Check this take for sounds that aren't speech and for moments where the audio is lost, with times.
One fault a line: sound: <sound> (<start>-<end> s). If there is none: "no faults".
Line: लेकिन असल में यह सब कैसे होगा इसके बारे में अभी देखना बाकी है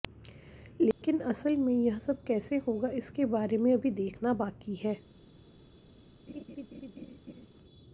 sound: dropout (0.9-1.0 s)
sound: laugh (6.3-7.5 s)